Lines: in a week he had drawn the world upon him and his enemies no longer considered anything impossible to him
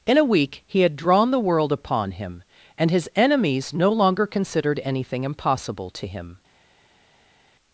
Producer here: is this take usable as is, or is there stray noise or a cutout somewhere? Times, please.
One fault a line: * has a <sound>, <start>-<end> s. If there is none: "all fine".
all fine